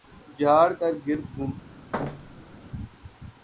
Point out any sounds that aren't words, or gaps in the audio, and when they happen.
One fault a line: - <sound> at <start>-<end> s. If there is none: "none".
- thud at 1.9-2.6 s